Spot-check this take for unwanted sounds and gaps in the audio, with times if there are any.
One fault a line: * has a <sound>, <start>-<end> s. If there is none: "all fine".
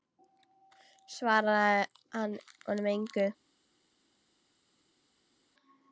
all fine